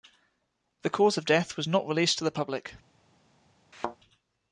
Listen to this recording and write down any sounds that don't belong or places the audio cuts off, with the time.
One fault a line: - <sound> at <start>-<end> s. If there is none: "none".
- thud at 3.7-4.0 s